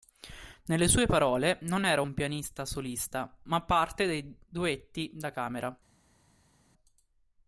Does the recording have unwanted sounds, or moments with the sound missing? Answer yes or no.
no